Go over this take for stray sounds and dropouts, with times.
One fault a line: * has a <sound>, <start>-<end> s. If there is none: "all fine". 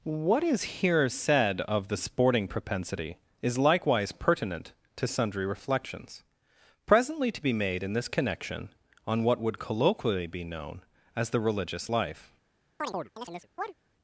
* has a chirp, 12.8-13.7 s